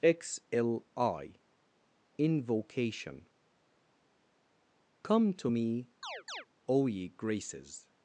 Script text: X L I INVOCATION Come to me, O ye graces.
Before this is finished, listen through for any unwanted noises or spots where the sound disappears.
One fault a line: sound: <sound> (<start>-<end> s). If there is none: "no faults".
sound: chirp (6.0-6.5 s)